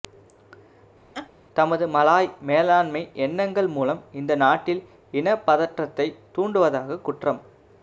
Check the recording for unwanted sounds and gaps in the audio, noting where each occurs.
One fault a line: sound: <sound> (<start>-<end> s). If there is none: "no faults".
sound: laugh (1.1-1.3 s)